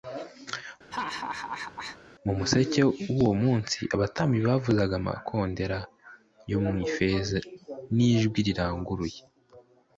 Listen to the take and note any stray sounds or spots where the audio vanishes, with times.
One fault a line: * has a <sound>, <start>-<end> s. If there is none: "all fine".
* has a laugh, 0.9-2.0 s